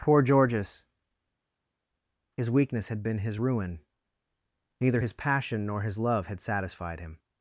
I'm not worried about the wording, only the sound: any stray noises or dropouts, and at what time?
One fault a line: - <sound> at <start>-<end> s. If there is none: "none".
none